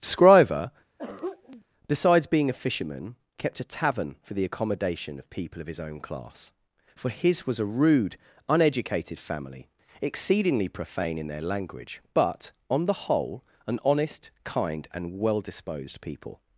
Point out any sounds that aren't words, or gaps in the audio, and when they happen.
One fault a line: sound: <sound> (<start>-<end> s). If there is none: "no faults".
sound: throat clearing (1.0-1.6 s)